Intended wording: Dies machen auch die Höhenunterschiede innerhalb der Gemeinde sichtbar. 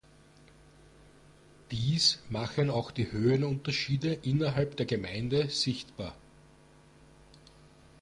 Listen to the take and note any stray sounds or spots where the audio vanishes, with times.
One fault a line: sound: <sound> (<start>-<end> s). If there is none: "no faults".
no faults